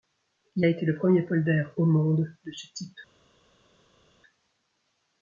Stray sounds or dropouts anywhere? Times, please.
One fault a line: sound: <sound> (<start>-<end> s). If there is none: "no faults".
no faults